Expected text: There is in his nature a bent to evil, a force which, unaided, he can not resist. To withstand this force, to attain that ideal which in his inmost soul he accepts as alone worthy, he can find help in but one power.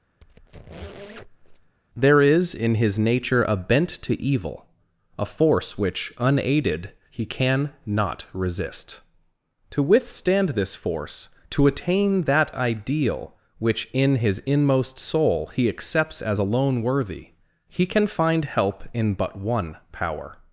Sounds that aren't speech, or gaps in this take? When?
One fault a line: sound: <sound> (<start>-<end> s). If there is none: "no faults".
sound: squeak (0.2-1.8 s)